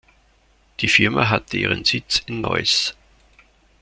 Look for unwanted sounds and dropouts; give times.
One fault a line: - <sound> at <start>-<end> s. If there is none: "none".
none